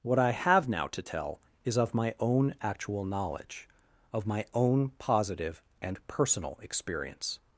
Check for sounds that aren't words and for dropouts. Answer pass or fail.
pass